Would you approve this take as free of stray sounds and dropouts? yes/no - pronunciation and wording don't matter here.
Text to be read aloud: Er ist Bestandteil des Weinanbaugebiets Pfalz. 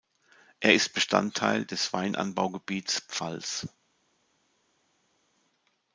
yes